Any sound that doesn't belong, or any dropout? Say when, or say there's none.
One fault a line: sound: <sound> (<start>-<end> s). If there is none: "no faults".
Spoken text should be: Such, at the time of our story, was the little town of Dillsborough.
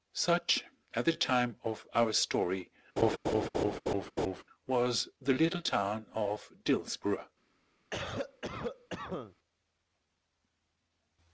sound: laugh (3.0-4.4 s)
sound: cough (7.9-9.4 s)